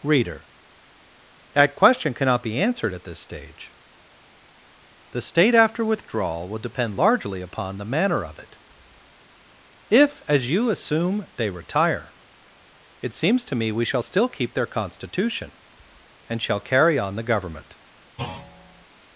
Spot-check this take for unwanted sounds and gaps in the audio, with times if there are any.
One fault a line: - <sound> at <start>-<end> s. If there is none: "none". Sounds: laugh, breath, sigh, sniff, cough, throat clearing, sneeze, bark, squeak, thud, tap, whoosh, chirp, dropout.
- thud at 18.2-18.9 s